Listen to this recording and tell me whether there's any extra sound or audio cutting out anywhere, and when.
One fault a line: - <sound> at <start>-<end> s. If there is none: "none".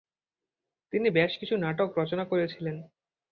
none